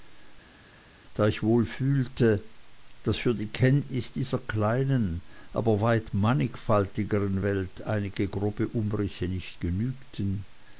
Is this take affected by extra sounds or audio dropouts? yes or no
no